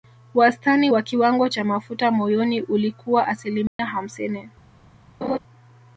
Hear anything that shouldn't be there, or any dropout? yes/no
yes